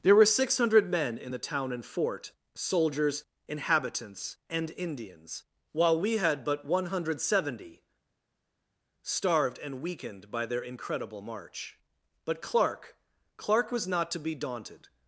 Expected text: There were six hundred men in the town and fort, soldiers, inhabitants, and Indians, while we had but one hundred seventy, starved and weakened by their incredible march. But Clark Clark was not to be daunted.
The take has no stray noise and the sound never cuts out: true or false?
true